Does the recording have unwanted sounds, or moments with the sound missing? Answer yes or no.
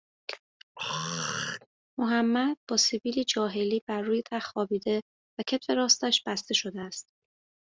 yes